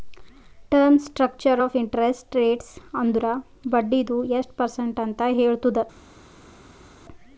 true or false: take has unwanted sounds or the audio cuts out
false